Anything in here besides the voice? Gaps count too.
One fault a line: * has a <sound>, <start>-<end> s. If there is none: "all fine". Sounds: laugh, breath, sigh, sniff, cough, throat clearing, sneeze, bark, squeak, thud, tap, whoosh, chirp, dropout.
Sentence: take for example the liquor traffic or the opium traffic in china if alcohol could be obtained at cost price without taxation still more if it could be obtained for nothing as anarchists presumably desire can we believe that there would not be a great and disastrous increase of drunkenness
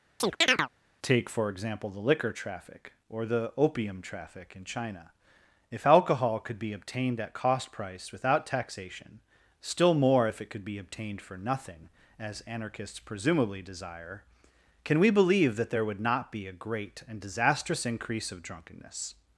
* has a chirp, 0.2-0.7 s